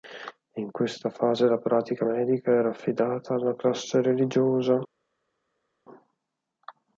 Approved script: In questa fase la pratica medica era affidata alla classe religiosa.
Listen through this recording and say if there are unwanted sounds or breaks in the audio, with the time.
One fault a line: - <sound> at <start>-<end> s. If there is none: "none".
none